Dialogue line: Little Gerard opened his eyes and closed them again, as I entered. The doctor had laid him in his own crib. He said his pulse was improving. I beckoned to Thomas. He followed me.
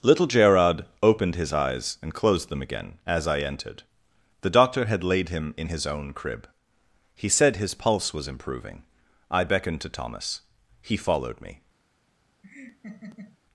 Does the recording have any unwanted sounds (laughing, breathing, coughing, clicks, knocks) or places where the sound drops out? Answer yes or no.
yes